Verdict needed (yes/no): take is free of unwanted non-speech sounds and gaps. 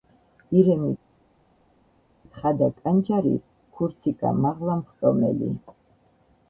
yes